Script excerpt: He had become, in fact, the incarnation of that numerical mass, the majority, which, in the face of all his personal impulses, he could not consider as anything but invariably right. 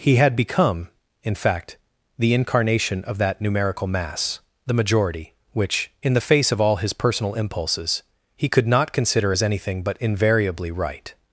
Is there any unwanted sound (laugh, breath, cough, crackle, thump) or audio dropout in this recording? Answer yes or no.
no